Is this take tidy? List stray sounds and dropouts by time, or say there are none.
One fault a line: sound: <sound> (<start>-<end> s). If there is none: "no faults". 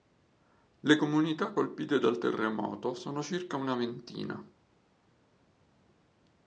no faults